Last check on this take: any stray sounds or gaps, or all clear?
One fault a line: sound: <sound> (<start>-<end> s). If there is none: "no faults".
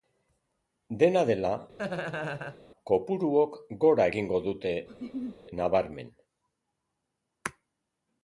sound: laugh (1.8-2.6 s)
sound: laugh (4.9-5.4 s)